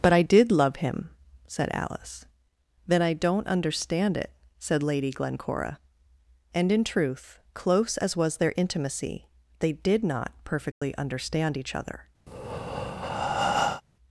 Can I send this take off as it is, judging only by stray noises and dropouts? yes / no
no